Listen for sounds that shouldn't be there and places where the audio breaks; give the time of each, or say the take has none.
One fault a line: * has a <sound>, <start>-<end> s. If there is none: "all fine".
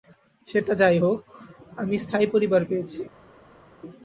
all fine